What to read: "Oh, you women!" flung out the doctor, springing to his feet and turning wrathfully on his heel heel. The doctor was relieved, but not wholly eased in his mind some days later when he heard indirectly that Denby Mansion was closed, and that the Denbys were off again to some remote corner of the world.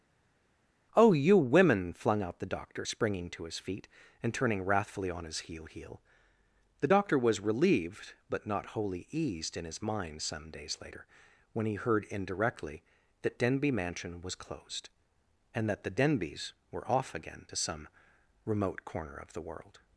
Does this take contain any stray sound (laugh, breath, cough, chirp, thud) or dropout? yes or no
no